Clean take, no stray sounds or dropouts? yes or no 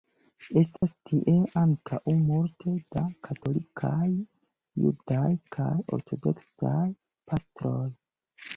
no